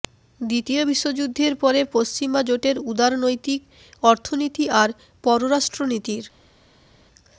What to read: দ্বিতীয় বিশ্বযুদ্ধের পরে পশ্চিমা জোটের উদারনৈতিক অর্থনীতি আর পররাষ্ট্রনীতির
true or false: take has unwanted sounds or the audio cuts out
false